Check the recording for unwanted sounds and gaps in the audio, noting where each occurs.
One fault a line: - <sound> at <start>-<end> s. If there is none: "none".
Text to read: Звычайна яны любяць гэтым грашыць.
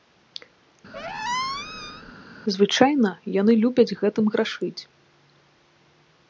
- squeak at 0.9-2.1 s